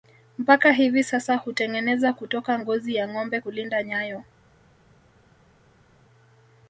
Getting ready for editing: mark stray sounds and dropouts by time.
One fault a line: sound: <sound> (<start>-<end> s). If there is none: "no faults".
no faults